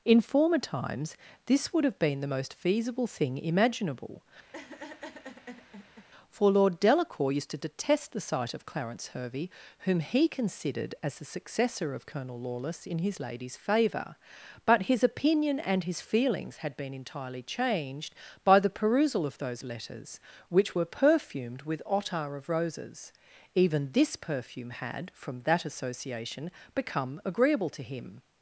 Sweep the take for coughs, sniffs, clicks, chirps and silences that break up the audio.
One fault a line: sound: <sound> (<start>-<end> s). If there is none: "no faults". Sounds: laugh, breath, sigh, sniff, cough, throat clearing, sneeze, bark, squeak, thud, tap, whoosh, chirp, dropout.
sound: laugh (4.5-6.1 s)